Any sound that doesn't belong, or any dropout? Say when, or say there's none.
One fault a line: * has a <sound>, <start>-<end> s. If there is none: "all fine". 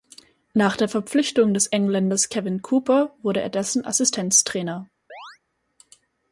* has a chirp, 5.1-5.4 s